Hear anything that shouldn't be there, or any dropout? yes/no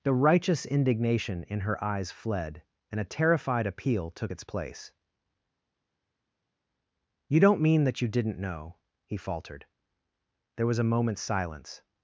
no